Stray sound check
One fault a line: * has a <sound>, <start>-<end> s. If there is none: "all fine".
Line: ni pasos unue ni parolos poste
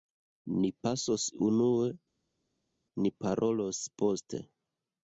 all fine